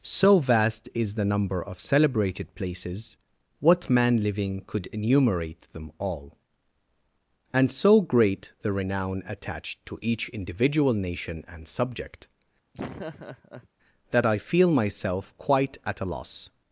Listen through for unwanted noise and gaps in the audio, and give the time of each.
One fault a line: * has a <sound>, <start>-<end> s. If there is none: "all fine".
* has a laugh, 12.7-13.7 s